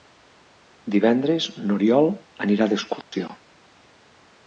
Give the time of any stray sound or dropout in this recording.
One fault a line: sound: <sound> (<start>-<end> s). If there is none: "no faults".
sound: dropout (3.0-3.1 s)